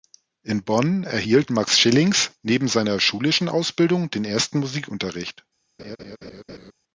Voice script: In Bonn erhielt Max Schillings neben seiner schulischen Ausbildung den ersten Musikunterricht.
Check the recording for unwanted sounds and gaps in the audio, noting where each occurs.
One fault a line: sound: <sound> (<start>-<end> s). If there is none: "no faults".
sound: laugh (5.8-6.7 s)